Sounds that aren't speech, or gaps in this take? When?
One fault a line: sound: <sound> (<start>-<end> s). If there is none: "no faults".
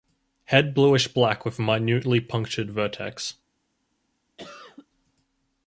sound: cough (4.4-4.9 s)